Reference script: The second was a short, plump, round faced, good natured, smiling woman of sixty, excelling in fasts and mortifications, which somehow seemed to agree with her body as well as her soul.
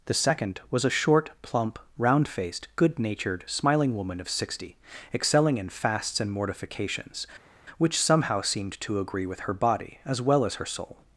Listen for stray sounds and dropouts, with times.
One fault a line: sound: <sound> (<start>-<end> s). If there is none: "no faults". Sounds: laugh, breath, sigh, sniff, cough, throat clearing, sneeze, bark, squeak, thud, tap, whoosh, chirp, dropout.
no faults